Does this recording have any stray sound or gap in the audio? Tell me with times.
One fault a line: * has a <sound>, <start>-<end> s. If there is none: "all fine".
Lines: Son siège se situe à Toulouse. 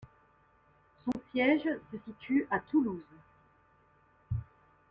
* has a dropout, 1.1-1.1 s